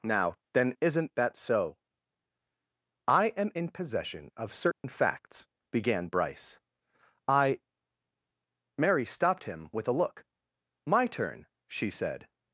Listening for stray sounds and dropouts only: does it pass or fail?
fail